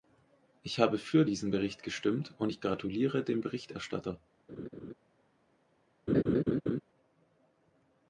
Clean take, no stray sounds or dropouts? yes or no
no